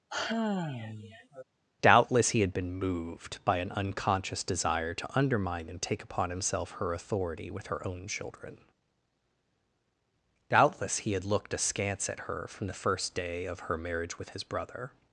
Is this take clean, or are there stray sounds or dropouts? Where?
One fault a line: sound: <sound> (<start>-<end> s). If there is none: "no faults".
sound: sigh (0.1-1.4 s)